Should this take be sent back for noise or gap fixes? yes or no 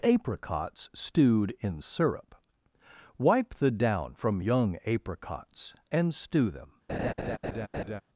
yes